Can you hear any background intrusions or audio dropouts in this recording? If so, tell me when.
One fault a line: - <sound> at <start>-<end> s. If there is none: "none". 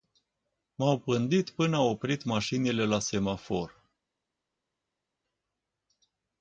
none